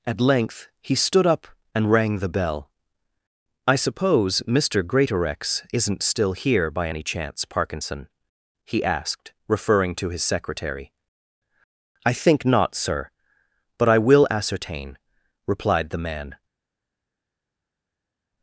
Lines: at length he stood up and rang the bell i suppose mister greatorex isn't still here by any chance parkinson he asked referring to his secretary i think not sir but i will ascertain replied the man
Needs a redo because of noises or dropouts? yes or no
no